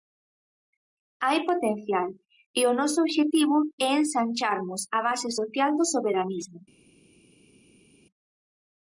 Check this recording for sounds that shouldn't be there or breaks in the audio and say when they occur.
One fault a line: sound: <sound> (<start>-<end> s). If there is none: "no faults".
no faults